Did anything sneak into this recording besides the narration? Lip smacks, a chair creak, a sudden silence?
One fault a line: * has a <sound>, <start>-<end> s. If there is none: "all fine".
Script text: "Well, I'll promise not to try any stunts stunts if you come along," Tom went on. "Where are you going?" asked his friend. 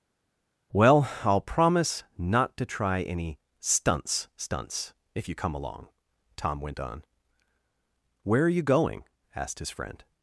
all fine